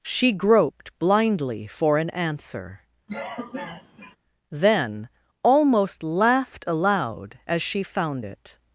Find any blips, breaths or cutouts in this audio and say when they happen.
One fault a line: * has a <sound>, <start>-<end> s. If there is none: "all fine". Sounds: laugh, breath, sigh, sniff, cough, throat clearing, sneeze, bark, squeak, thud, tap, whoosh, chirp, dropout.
* has a cough, 3.1-4.2 s